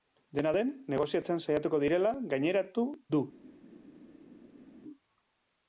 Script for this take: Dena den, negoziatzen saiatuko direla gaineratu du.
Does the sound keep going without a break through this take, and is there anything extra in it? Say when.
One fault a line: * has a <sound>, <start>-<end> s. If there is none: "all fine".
all fine